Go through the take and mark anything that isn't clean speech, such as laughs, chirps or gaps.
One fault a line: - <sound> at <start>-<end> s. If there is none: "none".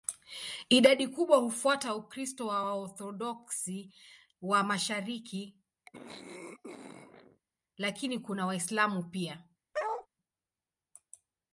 - throat clearing at 5.9-7.4 s
- bark at 9.7-10.1 s